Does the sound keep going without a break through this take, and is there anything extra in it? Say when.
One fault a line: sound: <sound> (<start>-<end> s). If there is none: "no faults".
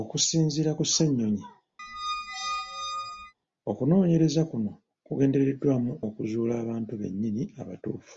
sound: squeak (1.8-3.3 s)